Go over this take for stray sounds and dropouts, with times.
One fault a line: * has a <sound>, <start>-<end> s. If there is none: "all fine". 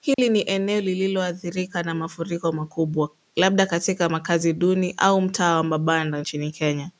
* has a dropout, 0.1-0.2 s